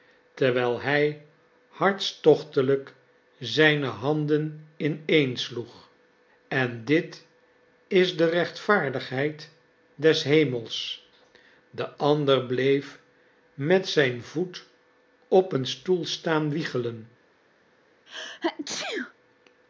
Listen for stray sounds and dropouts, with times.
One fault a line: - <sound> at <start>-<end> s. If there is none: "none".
- sneeze at 18.1-19.1 s